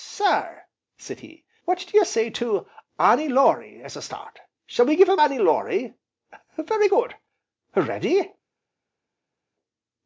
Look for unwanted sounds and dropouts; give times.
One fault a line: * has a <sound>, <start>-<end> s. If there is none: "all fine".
all fine